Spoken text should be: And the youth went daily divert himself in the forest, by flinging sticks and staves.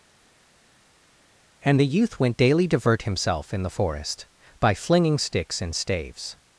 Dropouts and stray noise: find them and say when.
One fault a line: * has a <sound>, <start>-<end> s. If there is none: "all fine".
all fine